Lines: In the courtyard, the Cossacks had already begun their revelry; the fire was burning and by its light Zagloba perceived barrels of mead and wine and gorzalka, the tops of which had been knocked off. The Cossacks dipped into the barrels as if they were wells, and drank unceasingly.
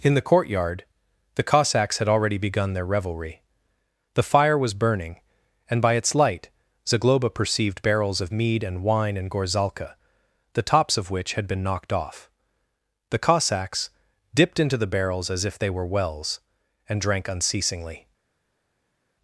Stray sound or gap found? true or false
false